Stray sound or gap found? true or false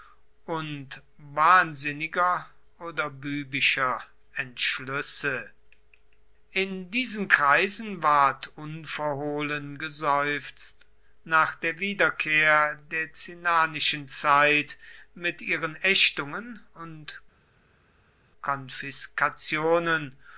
false